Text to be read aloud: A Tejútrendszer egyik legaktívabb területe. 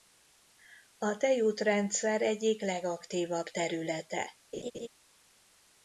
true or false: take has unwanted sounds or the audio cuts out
true